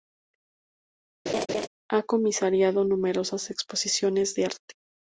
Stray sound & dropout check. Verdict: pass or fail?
fail